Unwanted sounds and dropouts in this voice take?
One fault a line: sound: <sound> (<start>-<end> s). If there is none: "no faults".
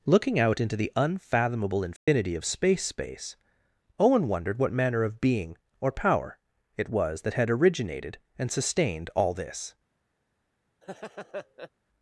sound: dropout (2.0-2.1 s)
sound: laugh (10.8-11.7 s)